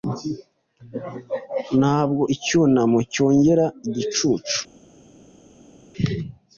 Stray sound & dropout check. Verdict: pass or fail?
pass